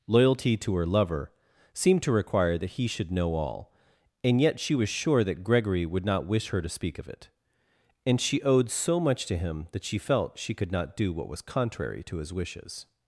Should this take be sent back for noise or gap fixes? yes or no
no